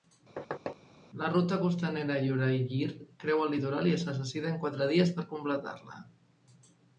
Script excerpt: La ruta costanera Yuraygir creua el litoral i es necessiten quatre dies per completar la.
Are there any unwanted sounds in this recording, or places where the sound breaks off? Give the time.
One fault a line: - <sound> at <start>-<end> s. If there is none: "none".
- thud at 0.4-0.8 s